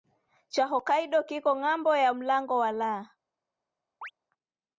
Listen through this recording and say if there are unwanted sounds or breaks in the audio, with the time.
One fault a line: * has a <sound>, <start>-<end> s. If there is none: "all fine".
* has a chirp, 4.0-4.1 s